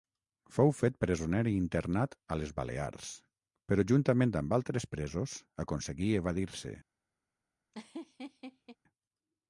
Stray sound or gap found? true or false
true